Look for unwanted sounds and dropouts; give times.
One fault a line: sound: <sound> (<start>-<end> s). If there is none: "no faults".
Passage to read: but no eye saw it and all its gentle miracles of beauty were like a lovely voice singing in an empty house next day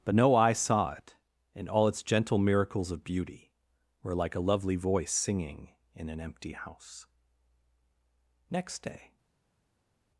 no faults